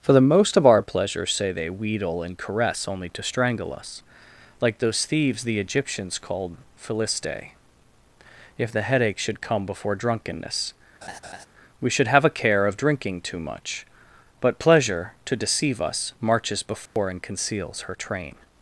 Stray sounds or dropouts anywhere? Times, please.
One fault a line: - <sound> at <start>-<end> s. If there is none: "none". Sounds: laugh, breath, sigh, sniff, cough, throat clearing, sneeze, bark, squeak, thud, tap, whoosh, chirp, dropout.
- laugh at 11.0-11.5 s
- dropout at 16.9-17.0 s